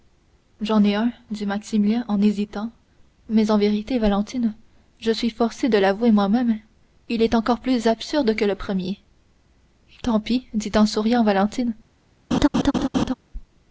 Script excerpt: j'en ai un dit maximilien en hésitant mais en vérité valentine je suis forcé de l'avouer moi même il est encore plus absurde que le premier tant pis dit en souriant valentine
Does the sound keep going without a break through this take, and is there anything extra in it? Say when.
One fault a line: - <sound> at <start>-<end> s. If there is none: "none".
- laugh at 12.3-13.1 s